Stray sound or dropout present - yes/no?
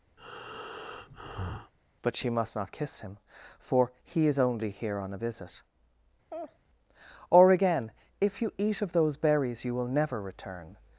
yes